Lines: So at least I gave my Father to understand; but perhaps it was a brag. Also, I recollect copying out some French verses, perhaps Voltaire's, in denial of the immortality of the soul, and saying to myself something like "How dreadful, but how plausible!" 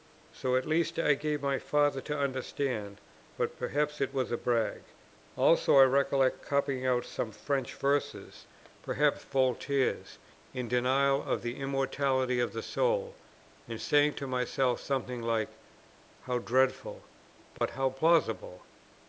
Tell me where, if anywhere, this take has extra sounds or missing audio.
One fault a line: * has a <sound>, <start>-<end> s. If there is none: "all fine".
* has a dropout, 17.6-17.6 s